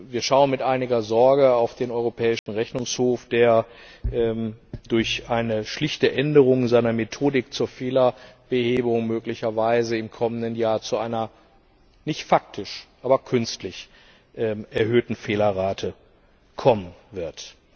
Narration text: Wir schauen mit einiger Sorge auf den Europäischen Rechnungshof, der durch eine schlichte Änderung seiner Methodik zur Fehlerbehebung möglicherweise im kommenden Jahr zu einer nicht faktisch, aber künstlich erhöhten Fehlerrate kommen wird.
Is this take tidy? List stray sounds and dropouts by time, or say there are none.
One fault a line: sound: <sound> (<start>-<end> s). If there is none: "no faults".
sound: dropout (2.4-2.5 s)